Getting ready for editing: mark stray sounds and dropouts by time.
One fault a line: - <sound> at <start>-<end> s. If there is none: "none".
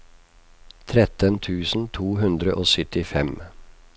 none